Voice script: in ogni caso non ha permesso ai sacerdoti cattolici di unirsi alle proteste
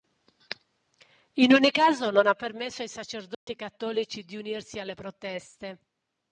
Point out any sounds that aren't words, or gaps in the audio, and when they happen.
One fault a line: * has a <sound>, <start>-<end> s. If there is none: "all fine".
* has a dropout, 3.3-3.5 s